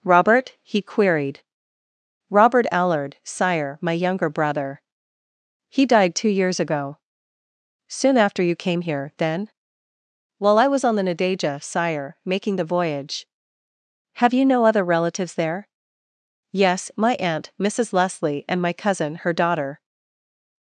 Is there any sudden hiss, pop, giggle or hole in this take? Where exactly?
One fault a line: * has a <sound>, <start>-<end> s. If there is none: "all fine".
all fine